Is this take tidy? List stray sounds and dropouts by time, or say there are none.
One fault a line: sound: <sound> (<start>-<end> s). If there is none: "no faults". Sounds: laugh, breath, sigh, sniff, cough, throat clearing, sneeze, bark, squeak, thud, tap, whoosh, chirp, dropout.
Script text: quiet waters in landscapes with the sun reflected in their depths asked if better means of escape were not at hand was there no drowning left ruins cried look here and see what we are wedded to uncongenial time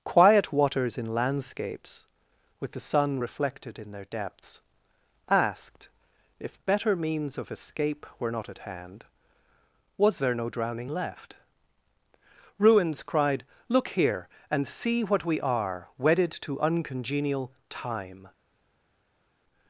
no faults